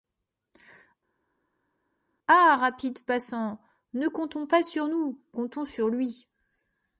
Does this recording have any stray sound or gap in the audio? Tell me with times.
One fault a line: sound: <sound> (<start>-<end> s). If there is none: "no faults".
no faults